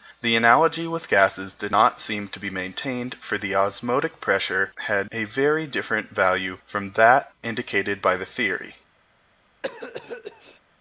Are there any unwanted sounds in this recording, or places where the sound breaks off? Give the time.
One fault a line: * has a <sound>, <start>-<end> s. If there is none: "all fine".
* has a cough, 9.6-10.6 s